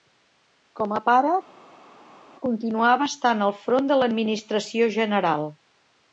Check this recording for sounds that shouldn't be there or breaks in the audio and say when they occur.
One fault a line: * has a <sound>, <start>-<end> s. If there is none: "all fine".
all fine